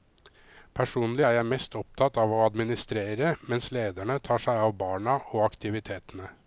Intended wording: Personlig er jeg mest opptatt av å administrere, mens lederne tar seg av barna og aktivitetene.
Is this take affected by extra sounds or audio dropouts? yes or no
no